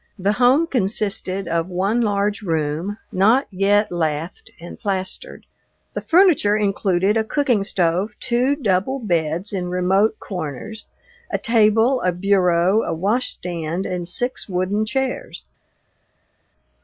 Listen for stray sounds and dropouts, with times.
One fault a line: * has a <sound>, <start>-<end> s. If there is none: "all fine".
all fine